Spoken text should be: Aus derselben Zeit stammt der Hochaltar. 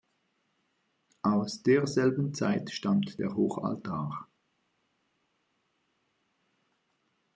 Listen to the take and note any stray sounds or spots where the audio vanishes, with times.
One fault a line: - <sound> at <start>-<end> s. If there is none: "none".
none